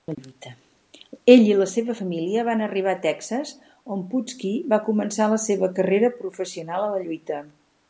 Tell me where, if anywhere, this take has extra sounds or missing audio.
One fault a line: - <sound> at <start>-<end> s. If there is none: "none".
none